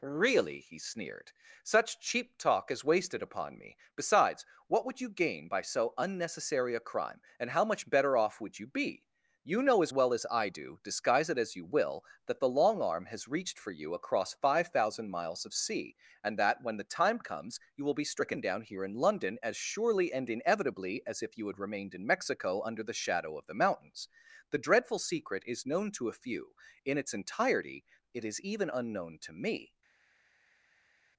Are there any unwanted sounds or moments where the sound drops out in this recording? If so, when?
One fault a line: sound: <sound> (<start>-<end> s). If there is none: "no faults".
no faults